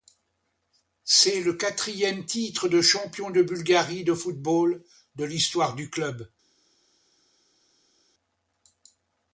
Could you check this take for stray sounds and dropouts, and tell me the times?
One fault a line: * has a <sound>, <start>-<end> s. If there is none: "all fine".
all fine